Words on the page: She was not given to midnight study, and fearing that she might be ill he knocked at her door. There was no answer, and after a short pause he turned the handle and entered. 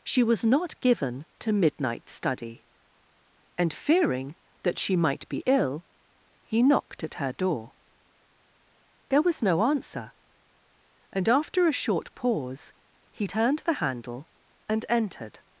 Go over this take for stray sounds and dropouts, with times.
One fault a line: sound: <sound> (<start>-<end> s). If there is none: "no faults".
no faults